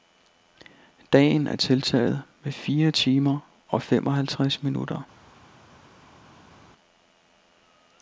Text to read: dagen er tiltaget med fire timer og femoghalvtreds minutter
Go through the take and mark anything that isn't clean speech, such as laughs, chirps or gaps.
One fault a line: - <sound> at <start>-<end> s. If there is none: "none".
none